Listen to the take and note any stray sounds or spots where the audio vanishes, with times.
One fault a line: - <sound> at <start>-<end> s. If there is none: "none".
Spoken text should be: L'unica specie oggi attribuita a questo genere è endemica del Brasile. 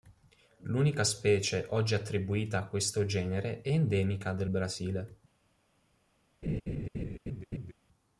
- laugh at 6.4-7.7 s